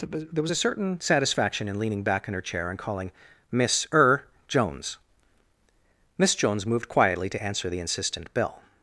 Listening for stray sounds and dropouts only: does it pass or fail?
pass